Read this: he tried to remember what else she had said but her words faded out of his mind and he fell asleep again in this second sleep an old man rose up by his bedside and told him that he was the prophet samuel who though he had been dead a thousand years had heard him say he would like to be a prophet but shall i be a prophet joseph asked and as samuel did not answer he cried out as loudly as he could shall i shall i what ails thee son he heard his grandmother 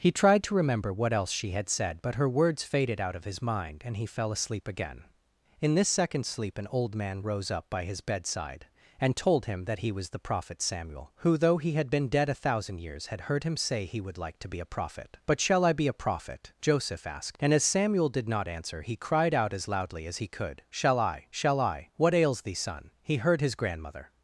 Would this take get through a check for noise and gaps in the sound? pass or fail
pass